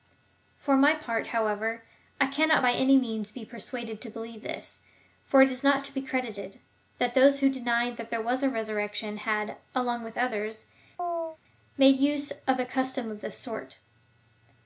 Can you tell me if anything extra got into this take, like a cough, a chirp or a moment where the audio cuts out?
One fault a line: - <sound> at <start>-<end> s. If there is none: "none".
- chirp at 11.0-11.4 s